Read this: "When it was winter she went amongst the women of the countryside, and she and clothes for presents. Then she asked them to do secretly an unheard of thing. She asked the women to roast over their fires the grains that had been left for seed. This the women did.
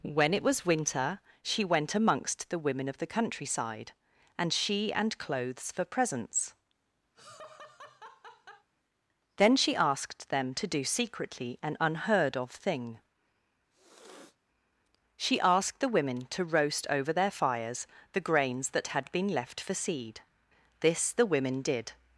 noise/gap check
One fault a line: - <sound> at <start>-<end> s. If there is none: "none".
- laugh at 7.1-8.7 s
- sniff at 13.7-14.4 s